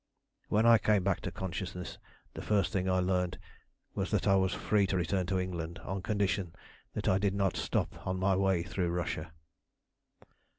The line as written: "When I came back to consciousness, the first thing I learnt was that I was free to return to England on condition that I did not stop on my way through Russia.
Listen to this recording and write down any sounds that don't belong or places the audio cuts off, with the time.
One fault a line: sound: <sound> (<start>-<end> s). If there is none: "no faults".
no faults